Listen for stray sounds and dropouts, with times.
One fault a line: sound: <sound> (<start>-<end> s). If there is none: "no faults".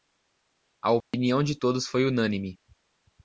sound: dropout (1.0-1.1 s)